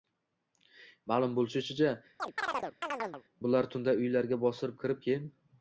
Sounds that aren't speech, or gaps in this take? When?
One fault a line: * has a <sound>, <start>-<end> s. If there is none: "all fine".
* has a chirp, 2.2-3.2 s